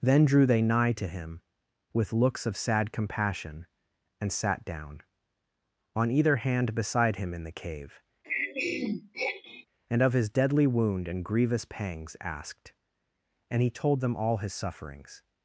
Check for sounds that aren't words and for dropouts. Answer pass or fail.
fail